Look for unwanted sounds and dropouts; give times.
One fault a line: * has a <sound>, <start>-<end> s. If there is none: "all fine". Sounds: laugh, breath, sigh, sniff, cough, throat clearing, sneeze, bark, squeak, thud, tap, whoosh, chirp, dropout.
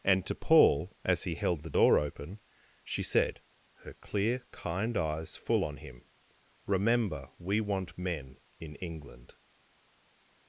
all fine